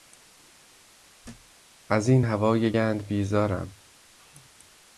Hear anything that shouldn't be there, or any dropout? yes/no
yes